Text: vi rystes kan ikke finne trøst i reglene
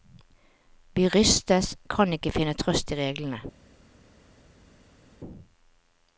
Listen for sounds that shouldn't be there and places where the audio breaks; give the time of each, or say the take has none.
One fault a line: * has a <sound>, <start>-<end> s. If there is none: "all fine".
all fine